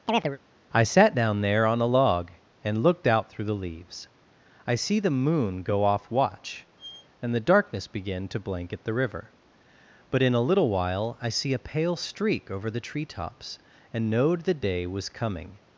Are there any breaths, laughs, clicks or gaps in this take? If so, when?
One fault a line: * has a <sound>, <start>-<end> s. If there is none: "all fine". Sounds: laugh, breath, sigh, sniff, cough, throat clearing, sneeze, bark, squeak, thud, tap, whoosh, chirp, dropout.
* has a chirp, 0.1-0.4 s
* has a squeak, 6.8-7.1 s